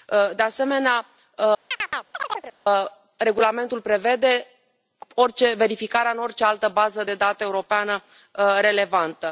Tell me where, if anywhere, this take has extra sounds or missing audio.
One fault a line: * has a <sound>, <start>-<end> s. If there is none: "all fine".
* has a chirp, 1.7-2.5 s